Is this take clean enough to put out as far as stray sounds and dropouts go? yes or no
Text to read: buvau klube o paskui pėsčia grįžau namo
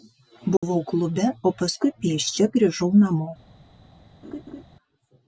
no